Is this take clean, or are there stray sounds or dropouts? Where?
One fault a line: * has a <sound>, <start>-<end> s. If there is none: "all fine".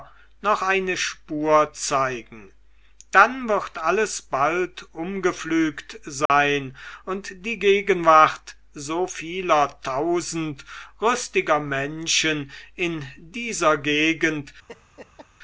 * has a dropout, 6.3-6.3 s
* has a laugh, 14.7-15.3 s